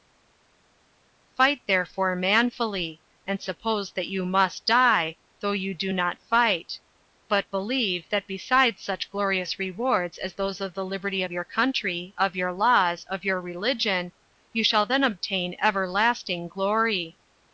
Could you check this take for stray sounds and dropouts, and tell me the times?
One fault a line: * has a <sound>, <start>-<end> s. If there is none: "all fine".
all fine